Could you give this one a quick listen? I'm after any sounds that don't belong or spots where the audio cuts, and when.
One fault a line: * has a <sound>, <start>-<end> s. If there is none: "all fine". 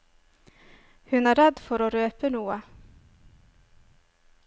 all fine